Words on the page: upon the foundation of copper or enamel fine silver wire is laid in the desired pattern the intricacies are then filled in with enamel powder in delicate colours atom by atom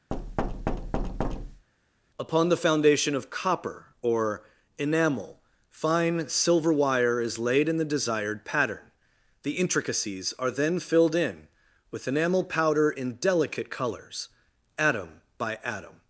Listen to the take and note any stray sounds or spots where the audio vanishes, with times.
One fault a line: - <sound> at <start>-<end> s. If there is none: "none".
- thud at 0.1-1.7 s